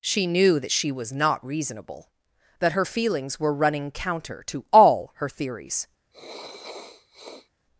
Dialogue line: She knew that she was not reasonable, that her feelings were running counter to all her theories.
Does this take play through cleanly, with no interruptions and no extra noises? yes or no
no